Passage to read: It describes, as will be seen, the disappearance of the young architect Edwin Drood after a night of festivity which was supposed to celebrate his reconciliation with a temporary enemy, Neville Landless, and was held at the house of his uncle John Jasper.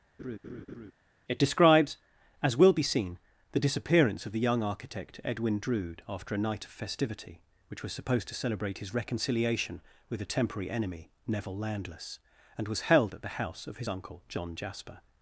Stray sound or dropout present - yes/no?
yes